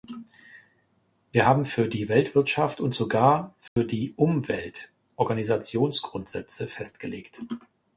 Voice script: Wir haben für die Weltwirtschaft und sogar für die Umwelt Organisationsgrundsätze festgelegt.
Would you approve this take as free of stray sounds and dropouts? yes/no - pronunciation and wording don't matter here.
no